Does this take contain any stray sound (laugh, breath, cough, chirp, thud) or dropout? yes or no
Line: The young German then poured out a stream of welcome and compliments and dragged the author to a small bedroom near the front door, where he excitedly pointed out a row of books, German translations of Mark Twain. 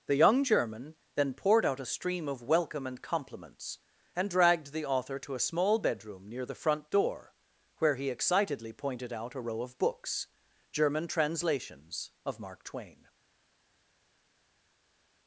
no